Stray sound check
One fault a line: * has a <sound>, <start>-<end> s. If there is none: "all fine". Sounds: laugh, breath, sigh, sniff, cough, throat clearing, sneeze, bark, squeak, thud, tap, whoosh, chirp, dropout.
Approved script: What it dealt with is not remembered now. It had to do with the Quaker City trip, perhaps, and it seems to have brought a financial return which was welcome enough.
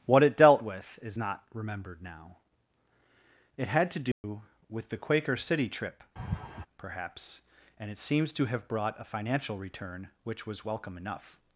* has a dropout, 4.1-4.2 s
* has a laugh, 6.2-6.7 s